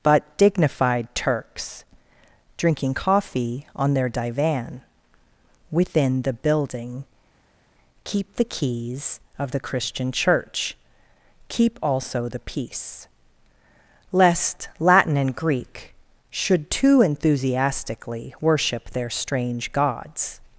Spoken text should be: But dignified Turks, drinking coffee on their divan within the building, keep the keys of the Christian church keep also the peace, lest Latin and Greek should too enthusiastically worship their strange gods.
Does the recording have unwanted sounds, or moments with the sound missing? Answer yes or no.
no